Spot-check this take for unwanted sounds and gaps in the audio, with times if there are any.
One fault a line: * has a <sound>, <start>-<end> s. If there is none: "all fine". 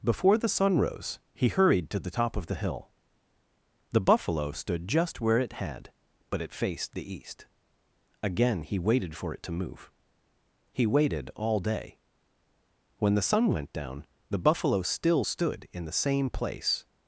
all fine